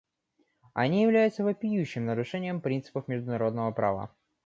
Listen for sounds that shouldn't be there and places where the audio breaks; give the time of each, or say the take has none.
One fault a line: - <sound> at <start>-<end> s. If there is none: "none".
none